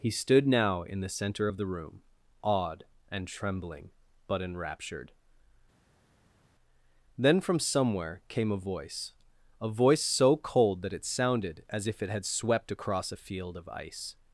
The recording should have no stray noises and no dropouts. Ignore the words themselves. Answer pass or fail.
pass